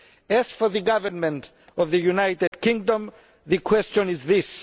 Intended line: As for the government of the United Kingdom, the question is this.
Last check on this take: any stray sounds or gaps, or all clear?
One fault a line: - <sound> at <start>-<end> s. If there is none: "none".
- dropout at 2.5-2.5 s